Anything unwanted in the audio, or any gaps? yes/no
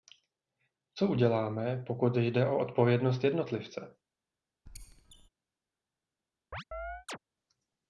yes